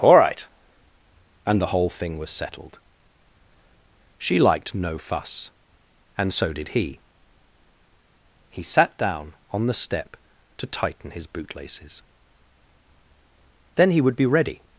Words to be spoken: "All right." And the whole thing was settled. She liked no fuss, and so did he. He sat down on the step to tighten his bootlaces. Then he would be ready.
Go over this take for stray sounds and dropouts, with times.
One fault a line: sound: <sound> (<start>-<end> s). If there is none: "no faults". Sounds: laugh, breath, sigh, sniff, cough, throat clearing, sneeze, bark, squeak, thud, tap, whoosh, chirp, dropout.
no faults